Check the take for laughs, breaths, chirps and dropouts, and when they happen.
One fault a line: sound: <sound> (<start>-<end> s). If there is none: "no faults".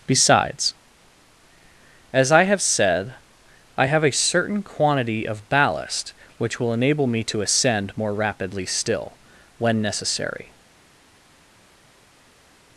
no faults